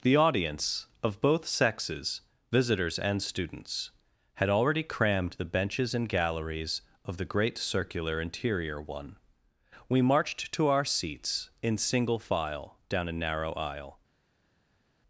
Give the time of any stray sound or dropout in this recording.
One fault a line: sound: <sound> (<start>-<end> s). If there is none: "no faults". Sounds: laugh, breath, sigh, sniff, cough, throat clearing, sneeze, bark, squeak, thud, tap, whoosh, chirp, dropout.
no faults